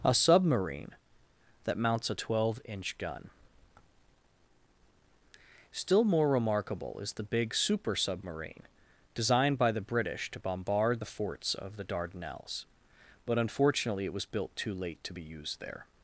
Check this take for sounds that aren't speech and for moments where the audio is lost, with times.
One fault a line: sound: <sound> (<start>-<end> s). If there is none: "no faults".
no faults